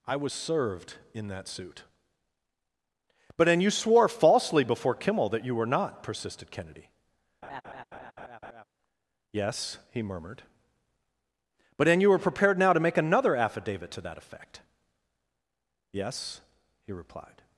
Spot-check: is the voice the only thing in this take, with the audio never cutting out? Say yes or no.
no